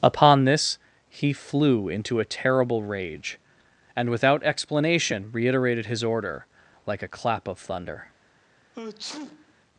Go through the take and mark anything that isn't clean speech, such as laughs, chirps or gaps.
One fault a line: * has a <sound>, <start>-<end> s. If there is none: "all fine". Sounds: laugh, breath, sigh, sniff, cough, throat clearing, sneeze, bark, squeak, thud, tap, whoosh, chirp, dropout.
* has a sneeze, 8.7-9.5 s